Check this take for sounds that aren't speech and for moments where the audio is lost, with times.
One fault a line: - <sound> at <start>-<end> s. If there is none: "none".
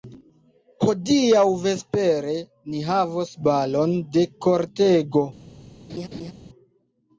- laugh at 5.9-6.3 s